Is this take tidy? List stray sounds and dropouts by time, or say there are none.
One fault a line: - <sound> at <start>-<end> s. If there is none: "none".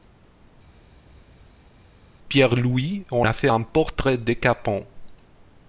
none